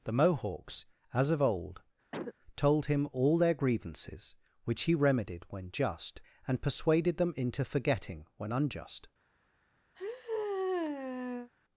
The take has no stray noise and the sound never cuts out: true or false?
false